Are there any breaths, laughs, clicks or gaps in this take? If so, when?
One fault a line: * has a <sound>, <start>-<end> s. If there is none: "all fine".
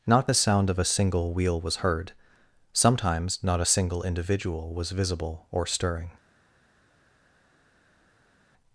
all fine